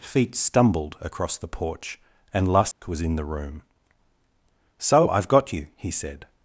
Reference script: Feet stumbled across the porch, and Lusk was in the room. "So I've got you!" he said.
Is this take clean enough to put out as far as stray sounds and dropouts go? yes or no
no